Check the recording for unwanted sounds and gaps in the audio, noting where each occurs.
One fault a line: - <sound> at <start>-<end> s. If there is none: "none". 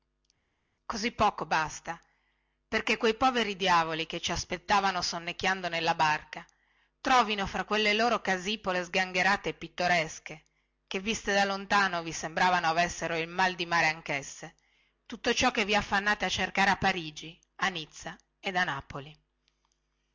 none